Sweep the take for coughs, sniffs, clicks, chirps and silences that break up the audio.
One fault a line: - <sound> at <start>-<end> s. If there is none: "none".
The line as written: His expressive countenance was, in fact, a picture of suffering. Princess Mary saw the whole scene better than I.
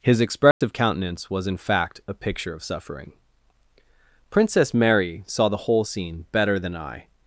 - dropout at 0.5-0.6 s